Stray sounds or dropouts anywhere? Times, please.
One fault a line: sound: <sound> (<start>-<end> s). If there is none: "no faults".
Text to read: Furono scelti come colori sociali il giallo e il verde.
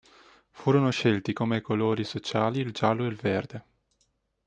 no faults